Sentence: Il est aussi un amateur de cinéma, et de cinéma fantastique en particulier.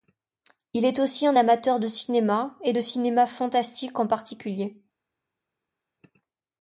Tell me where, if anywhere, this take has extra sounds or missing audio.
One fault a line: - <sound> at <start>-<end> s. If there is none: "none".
none